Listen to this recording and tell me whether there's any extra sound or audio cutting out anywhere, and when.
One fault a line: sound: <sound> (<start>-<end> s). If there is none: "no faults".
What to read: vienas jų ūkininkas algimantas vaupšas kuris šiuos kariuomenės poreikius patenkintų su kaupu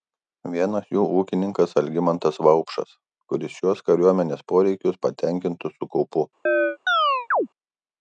sound: chirp (6.5-7.5 s)